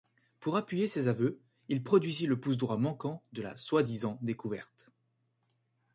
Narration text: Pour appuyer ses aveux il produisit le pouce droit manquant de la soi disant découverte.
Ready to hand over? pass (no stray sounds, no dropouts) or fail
pass